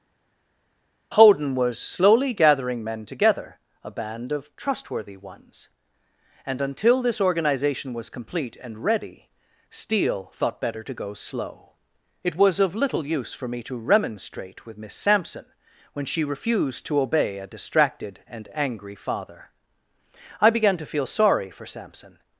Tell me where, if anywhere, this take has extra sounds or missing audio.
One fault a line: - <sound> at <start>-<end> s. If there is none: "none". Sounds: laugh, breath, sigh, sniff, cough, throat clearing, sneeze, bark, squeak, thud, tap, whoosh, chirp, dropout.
none